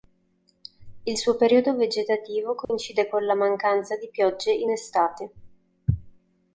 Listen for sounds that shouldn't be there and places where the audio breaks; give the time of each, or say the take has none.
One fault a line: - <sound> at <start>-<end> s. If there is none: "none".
- dropout at 2.6-2.7 s